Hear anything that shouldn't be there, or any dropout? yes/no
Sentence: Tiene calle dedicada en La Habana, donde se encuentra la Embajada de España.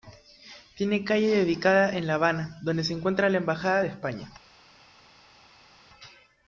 no